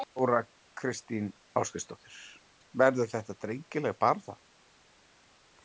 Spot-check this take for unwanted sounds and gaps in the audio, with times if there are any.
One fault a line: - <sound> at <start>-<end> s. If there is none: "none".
none